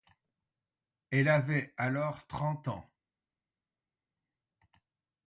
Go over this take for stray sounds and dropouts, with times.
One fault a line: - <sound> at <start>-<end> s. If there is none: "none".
none